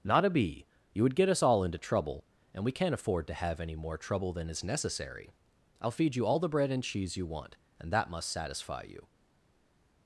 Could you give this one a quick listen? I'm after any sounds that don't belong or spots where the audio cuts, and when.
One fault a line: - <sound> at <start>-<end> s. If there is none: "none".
none